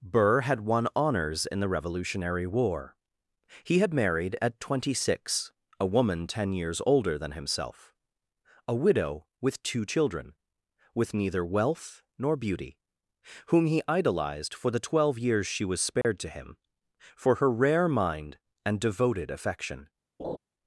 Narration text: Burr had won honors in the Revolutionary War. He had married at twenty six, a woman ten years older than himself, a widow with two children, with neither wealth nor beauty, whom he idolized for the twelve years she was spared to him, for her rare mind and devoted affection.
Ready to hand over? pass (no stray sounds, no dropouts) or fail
fail